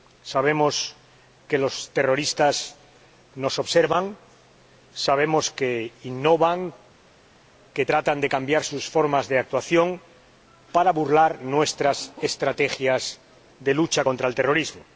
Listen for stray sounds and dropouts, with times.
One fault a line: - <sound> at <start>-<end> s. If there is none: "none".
none